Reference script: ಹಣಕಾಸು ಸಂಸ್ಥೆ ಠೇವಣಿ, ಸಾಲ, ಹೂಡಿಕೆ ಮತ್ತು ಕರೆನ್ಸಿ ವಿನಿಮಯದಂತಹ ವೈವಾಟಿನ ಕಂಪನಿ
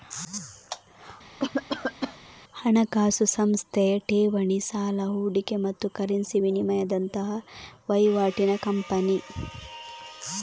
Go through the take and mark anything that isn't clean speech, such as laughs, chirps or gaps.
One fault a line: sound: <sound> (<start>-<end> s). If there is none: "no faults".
sound: cough (1.4-2.2 s)